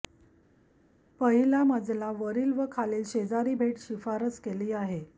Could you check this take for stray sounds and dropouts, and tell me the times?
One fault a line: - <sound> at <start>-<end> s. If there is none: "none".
none